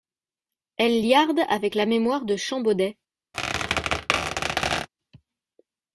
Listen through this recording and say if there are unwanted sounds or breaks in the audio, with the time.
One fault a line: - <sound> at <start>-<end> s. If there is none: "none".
- squeak at 3.3-4.9 s